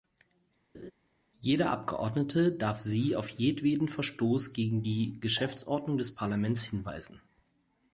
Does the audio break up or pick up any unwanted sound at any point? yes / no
yes